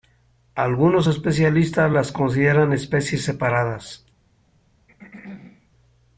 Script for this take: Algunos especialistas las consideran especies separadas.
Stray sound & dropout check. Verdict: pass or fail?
fail